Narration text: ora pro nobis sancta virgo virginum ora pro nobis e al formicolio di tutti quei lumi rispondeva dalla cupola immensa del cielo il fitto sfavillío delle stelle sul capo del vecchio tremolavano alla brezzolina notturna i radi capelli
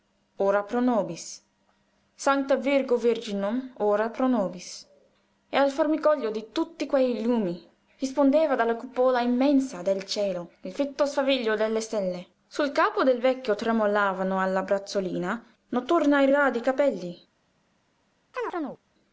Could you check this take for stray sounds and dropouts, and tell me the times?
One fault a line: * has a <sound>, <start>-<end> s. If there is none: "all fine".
* has a chirp, 18.3-18.8 s